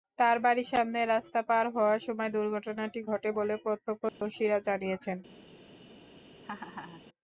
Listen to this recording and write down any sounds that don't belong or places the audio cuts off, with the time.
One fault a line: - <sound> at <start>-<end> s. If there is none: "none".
- dropout at 4.1-4.2 s
- laugh at 6.4-7.0 s